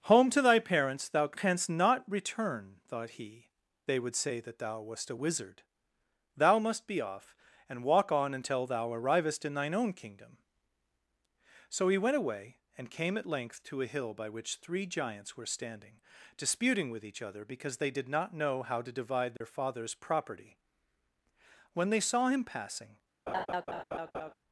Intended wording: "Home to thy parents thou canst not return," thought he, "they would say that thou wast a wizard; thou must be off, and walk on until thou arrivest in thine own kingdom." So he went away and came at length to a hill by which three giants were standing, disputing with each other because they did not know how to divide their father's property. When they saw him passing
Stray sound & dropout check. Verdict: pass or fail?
fail